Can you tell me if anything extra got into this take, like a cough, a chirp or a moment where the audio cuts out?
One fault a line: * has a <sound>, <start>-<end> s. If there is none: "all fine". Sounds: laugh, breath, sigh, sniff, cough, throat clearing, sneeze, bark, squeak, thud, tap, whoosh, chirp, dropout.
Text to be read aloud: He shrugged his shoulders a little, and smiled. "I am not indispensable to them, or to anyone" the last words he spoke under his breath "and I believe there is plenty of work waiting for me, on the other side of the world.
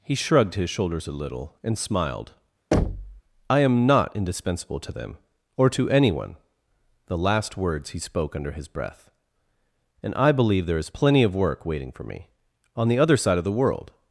* has a thud, 2.7-3.2 s